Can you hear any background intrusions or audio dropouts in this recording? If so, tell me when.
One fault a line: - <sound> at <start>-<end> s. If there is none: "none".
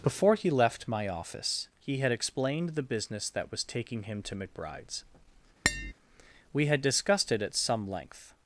- tap at 5.6-5.9 s